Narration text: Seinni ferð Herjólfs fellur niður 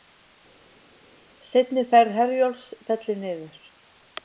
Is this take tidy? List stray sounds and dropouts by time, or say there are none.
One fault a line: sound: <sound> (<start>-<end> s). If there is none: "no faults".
no faults